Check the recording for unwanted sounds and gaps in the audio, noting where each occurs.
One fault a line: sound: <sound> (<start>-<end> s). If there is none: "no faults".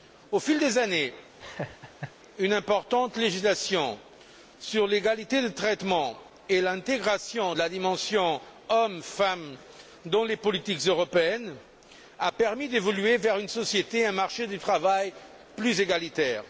sound: laugh (1.4-2.1 s)